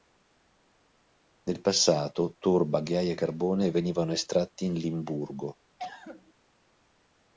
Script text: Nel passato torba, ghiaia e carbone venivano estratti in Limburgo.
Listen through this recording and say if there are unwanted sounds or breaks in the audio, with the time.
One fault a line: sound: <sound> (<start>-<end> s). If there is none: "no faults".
sound: cough (5.8-6.3 s)